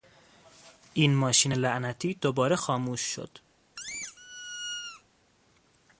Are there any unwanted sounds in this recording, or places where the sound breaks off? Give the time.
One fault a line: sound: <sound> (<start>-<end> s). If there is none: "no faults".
sound: squeak (3.8-5.0 s)